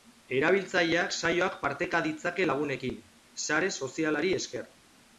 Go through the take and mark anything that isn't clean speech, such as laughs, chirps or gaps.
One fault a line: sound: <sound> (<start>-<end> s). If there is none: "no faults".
no faults